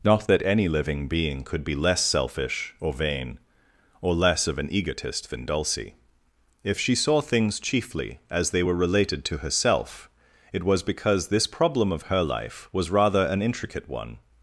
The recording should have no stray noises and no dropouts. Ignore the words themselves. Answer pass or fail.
pass